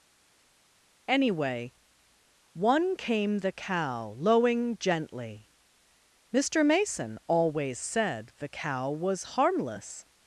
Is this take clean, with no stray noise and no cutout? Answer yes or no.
yes